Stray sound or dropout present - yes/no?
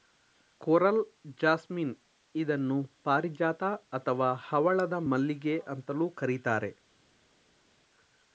no